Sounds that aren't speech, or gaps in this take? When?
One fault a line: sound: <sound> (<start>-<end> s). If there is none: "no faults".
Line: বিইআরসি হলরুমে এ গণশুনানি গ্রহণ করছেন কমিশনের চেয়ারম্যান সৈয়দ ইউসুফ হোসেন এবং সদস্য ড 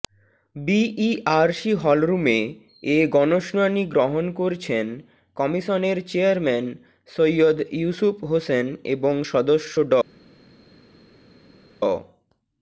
no faults